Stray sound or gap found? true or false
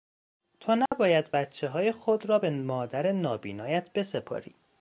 true